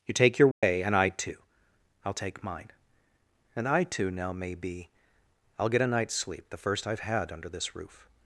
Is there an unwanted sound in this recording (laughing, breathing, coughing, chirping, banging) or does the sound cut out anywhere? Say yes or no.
yes